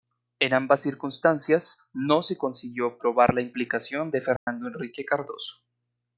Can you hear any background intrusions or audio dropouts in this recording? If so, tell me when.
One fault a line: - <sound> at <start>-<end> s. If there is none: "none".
- dropout at 4.4-4.5 s